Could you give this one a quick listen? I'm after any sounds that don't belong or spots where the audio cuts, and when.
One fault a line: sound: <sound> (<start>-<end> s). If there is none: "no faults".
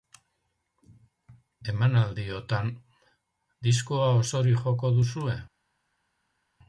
no faults